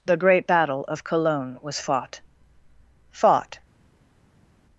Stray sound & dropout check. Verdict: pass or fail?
pass